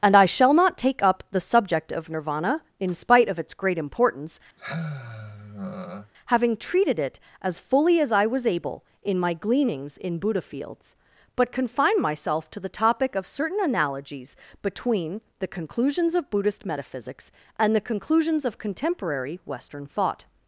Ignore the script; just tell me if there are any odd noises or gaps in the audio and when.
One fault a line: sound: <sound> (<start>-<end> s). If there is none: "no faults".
sound: sigh (4.6-6.1 s)